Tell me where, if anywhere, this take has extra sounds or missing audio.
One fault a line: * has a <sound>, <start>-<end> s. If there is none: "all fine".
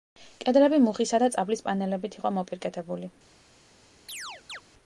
* has a chirp, 4.1-4.6 s